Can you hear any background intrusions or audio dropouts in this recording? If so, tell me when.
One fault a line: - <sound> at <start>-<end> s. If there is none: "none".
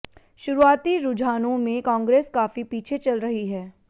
none